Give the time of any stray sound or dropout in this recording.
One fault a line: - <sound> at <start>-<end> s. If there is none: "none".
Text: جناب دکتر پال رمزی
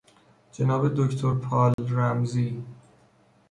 - dropout at 1.7-1.8 s